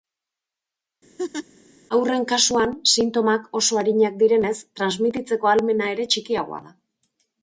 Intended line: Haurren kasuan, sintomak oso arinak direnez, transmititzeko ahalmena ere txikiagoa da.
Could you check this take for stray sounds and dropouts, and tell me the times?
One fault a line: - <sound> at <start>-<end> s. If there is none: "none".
- laugh at 1.2-1.5 s